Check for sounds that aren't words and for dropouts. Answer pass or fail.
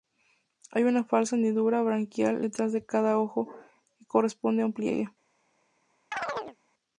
fail